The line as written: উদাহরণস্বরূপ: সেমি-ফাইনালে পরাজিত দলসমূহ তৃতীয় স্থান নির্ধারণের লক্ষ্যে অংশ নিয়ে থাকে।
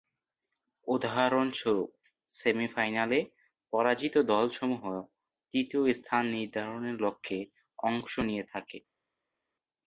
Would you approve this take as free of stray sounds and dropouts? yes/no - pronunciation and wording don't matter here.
yes